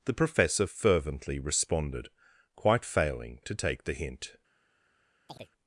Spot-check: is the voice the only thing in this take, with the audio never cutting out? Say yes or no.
no